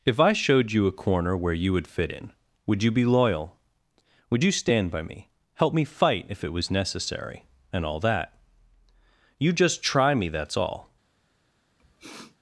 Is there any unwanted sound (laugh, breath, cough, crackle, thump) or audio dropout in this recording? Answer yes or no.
yes